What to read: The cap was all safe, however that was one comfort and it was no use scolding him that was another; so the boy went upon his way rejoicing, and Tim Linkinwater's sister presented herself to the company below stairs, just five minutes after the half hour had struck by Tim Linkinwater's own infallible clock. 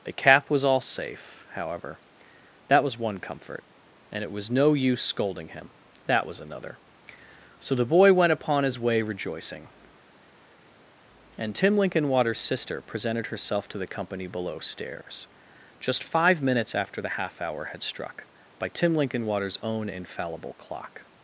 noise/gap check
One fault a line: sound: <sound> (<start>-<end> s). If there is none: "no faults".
no faults